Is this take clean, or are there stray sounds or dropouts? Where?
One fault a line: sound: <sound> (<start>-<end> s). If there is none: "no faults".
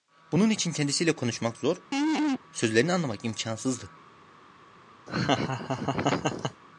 sound: laugh (1.9-2.4 s)
sound: laugh (5.1-6.6 s)